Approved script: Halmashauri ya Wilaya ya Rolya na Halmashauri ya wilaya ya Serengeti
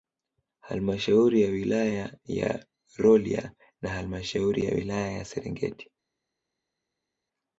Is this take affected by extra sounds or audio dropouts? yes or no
no